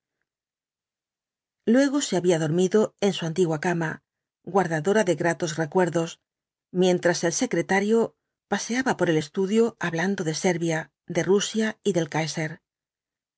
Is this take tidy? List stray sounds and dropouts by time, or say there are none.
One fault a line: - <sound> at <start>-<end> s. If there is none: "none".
none